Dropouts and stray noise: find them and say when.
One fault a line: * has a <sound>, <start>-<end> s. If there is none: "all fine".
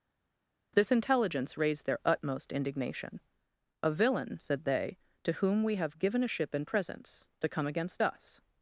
all fine